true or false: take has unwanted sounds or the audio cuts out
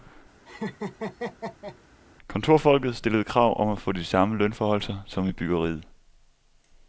true